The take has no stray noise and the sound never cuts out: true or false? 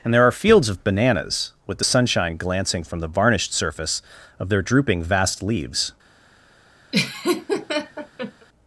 false